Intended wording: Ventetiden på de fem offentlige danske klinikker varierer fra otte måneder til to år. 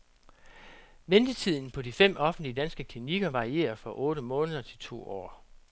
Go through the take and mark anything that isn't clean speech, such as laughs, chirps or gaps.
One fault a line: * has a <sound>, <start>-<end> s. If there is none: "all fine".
all fine